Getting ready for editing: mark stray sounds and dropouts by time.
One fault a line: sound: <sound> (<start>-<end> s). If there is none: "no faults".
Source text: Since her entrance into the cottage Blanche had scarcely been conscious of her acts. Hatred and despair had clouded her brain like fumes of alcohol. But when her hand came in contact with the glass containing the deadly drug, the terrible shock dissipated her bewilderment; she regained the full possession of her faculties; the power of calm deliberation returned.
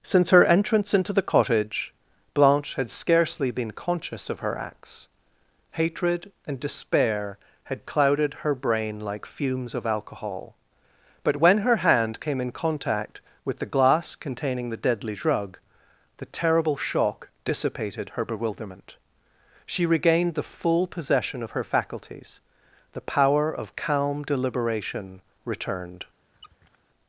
sound: squeak (26.3-26.8 s)